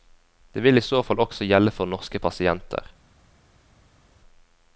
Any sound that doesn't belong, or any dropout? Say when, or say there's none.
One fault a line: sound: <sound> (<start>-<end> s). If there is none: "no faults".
no faults